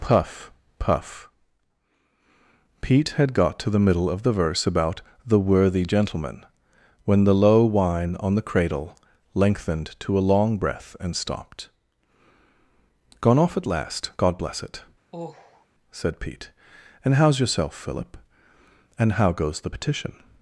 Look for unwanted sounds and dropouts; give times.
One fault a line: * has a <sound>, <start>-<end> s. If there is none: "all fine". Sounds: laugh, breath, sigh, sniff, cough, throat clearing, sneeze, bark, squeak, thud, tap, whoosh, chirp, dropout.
* has a sigh, 15.1-15.7 s